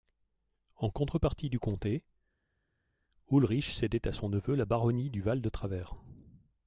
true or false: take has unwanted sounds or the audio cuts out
false